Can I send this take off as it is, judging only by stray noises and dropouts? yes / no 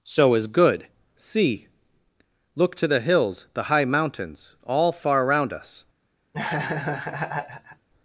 no